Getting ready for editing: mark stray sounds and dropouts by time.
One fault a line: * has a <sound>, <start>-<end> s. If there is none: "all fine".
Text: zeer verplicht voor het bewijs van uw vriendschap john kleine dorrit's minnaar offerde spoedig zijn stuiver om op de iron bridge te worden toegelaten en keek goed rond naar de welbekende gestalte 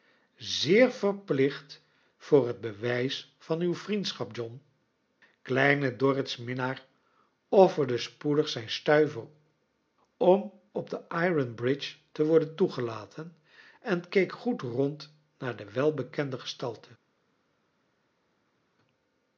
all fine